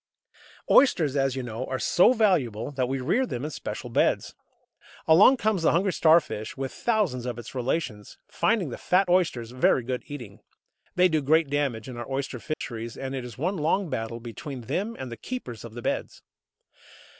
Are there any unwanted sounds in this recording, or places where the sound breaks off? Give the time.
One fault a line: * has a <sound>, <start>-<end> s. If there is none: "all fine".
* has a dropout, 12.5-12.6 s